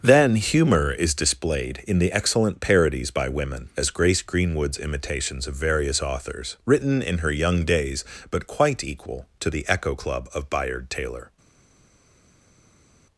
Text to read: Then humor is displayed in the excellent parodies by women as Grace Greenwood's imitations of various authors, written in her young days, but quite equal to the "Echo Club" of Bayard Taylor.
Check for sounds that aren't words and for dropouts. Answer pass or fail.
pass